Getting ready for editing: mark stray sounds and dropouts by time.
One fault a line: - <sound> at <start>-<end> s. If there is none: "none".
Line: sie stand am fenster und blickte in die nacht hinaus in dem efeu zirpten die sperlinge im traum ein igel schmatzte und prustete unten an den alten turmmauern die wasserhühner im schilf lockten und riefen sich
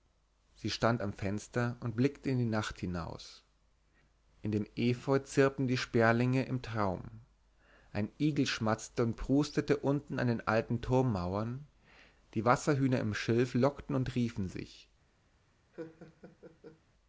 - laugh at 15.7-16.8 s